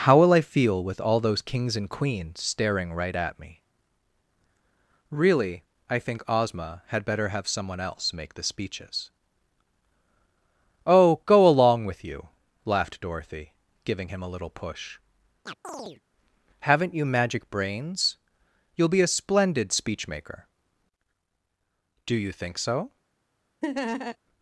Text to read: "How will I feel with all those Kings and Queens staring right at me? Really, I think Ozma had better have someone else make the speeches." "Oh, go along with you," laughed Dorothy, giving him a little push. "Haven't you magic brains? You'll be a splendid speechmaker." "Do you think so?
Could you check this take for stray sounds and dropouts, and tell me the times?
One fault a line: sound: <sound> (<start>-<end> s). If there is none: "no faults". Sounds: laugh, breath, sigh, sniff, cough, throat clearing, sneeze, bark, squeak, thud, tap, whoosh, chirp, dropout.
sound: chirp (15.5-16.0 s)
sound: laugh (23.6-24.2 s)